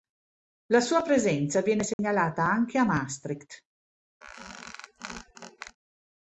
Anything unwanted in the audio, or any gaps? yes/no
yes